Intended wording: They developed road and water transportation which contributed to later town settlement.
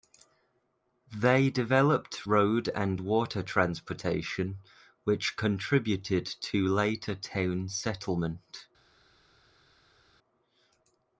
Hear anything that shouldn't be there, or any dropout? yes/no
no